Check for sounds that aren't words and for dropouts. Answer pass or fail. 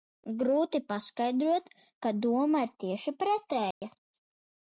fail